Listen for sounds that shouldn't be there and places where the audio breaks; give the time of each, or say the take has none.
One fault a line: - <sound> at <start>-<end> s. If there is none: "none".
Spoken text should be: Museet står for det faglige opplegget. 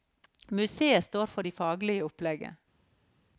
none